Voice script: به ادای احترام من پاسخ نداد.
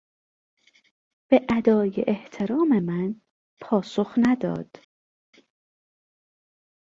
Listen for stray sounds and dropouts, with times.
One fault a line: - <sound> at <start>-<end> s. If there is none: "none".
none